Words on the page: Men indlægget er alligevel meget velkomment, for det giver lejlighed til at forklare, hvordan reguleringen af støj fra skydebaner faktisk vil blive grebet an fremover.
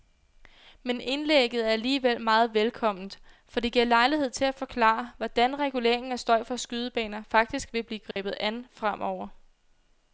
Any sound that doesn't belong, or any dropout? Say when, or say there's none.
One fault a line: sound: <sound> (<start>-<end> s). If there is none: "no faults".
sound: dropout (8.1-8.2 s)